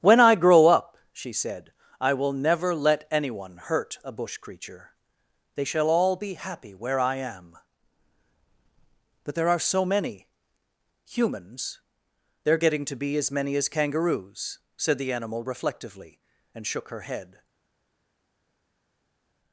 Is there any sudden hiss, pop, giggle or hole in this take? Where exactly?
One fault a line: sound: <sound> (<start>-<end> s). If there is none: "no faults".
no faults